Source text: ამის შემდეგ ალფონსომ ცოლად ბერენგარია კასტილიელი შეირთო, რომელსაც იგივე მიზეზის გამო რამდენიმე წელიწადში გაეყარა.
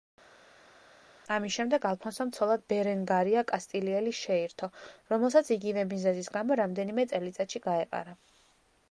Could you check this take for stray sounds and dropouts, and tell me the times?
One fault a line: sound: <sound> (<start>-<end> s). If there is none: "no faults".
no faults